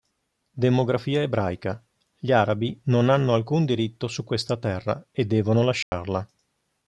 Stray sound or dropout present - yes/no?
yes